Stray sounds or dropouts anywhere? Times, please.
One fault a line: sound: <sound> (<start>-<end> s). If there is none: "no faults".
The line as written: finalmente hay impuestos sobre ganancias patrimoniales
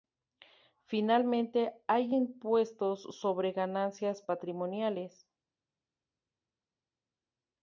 no faults